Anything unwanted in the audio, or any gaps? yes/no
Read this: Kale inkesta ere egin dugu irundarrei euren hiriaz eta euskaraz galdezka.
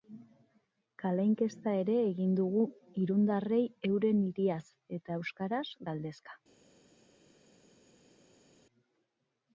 no